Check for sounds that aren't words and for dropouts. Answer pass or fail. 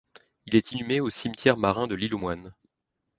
pass